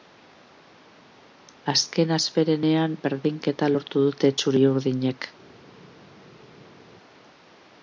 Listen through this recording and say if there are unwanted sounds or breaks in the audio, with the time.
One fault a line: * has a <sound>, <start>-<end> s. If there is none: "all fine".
all fine